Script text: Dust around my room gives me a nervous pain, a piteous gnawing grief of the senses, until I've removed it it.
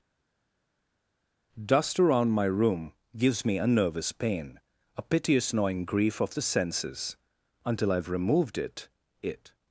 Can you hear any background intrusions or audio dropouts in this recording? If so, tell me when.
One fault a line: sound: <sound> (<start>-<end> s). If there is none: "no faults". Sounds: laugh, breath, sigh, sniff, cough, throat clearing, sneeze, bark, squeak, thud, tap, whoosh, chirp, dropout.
no faults